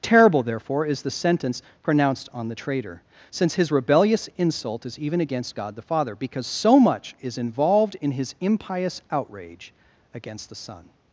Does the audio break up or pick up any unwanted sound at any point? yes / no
no